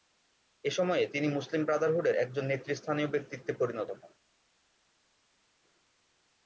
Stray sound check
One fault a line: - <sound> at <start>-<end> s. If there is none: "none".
none